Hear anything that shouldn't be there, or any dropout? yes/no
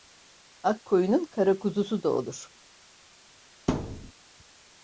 yes